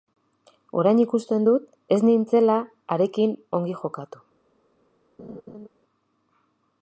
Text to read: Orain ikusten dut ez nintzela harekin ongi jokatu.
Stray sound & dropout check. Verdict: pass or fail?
fail